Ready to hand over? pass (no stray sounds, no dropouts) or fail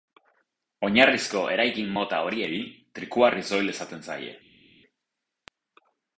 pass